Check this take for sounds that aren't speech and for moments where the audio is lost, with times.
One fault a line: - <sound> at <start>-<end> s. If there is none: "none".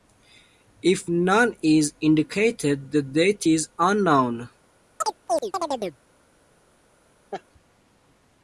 - chirp at 5.0-6.0 s
- laugh at 7.3-7.4 s